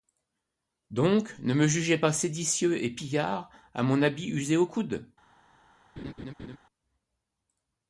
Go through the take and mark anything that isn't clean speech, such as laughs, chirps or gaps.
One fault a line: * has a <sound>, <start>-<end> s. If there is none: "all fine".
* has a laugh, 6.0-6.6 s